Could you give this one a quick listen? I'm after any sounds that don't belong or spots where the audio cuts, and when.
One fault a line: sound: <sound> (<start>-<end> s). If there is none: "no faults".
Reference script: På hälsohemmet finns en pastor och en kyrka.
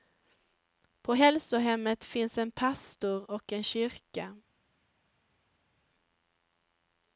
no faults